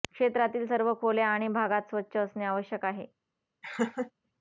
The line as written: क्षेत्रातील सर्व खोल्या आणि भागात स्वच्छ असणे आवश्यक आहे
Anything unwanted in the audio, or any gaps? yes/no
yes